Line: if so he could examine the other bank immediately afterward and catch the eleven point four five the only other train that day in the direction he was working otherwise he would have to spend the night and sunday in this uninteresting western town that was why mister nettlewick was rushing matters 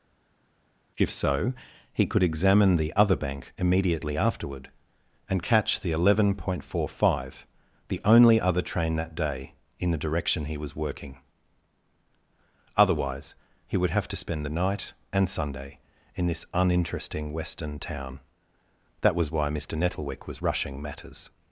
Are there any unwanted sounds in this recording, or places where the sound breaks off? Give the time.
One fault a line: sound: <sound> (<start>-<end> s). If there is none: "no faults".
no faults